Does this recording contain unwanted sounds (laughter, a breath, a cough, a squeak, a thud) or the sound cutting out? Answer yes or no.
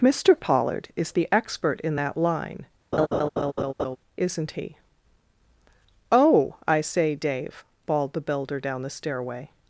yes